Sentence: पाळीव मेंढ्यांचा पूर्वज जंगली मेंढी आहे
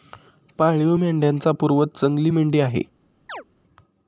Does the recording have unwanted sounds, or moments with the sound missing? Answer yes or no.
yes